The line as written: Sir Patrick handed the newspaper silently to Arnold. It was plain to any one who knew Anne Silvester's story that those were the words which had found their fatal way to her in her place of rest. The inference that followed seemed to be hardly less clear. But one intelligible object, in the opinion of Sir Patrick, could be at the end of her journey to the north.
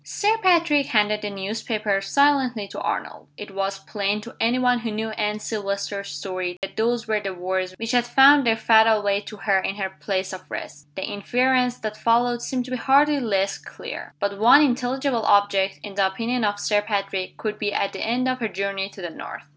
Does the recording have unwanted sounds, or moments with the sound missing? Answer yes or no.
yes